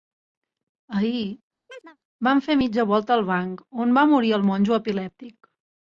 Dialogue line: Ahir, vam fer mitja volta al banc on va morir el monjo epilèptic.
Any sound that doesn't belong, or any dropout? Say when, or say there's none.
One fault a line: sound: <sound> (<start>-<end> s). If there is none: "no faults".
sound: chirp (1.7-2.0 s)